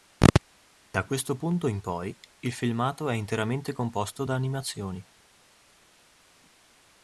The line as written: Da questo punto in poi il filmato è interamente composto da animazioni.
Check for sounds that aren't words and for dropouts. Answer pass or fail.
fail